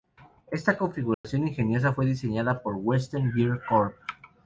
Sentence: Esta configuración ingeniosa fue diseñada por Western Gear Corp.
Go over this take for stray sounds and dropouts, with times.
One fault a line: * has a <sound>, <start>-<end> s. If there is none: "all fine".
* has a dropout, 1.1-1.2 s